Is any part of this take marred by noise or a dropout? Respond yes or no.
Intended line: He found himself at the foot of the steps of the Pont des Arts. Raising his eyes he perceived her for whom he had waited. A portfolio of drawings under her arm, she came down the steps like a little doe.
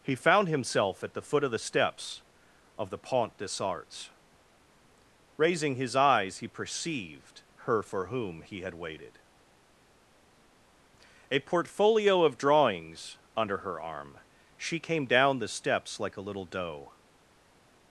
no